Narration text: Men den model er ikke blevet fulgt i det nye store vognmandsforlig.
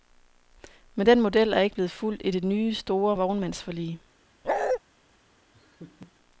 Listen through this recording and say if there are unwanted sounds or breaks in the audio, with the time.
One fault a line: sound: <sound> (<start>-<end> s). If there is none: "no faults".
sound: bark (4.4-4.8 s)
sound: laugh (5.5-6.1 s)